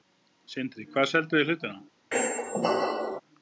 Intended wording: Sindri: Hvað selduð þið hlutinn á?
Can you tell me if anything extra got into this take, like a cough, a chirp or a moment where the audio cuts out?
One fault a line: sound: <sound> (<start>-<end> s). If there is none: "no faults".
sound: squeak (2.1-3.2 s)